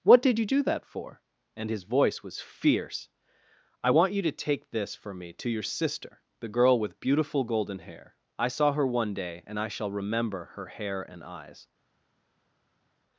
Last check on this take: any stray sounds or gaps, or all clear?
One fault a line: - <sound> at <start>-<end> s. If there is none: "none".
none